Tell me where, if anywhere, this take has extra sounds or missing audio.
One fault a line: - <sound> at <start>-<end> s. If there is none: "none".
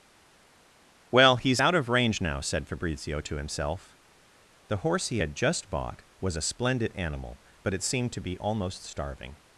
none